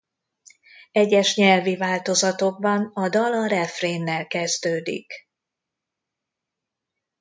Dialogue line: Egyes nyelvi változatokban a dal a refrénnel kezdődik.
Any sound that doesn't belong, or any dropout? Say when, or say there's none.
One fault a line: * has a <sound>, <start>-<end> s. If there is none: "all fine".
all fine